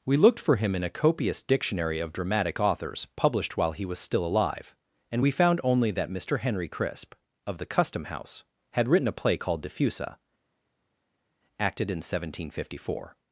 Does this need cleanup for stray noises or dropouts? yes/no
no